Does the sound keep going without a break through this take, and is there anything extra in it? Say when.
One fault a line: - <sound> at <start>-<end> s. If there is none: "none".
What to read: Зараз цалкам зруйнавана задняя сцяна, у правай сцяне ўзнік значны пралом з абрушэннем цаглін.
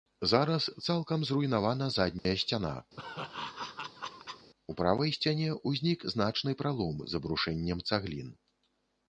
- dropout at 2.2-2.3 s
- laugh at 3.0-4.5 s